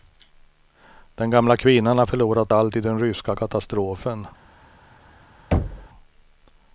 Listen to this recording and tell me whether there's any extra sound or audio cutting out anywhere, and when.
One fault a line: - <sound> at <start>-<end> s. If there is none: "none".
- thud at 5.5-5.9 s